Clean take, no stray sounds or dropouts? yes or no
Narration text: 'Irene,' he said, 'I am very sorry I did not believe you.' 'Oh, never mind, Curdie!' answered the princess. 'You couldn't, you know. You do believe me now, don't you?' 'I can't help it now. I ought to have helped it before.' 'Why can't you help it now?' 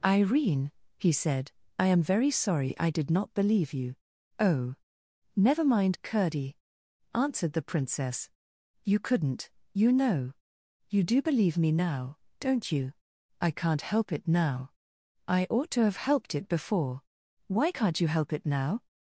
yes